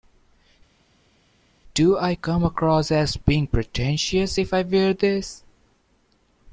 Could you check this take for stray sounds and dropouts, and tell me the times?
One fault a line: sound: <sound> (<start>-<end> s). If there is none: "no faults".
no faults